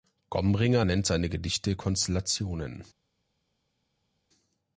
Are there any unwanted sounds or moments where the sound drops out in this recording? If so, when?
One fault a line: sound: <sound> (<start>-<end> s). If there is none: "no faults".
no faults